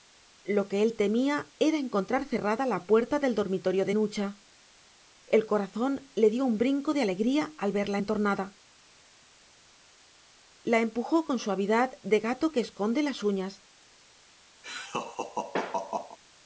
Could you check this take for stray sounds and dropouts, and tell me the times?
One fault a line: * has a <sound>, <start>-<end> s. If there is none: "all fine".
* has a laugh, 14.6-16.2 s